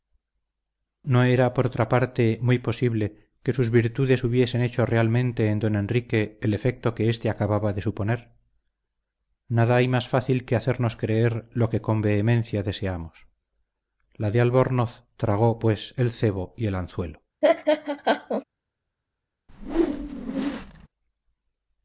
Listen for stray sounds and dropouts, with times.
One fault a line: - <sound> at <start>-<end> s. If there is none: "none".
- laugh at 17.4-18.4 s
- whoosh at 19.5-20.9 s